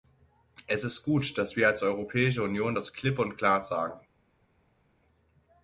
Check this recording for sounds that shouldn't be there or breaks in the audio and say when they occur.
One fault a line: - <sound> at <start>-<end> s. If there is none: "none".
none